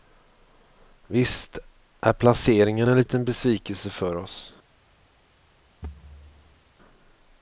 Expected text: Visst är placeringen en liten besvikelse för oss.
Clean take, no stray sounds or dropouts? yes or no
no